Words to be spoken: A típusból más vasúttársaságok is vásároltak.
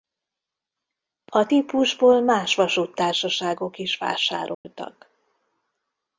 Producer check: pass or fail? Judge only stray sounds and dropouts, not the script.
fail